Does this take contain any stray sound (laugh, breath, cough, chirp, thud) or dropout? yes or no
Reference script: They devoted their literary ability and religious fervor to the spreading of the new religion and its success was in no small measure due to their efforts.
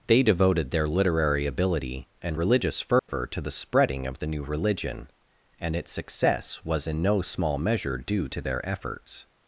yes